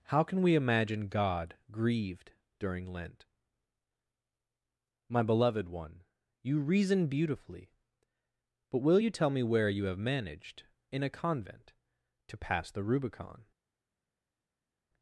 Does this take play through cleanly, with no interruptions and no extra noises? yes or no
yes